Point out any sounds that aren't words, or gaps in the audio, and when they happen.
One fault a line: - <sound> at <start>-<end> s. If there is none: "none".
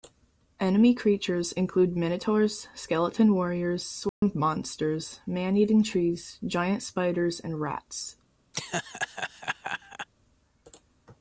- dropout at 4.1-4.2 s
- laugh at 8.5-10.1 s